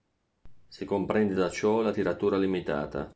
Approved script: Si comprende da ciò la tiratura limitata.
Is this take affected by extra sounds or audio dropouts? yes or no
no